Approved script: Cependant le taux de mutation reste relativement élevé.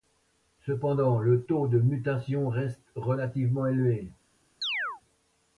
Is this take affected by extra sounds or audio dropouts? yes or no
yes